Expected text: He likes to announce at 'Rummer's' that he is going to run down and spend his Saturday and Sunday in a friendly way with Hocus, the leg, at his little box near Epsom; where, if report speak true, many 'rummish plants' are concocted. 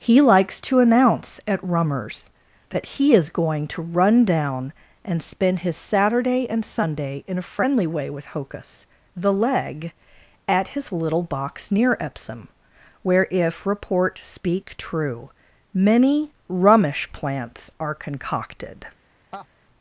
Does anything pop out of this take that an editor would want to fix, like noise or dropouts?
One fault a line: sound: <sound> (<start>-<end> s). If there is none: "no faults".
sound: laugh (19.3-19.5 s)